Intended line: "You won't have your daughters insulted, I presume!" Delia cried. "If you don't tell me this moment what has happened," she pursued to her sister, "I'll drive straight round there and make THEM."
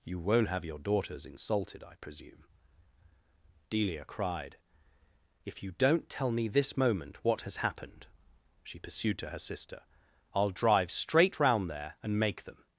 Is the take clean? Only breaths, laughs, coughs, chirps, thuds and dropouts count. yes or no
yes